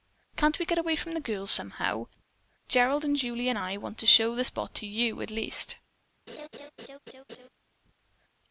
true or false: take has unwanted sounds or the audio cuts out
true